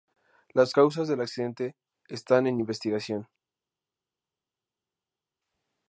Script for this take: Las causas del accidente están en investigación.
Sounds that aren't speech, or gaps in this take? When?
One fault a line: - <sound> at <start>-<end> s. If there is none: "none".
none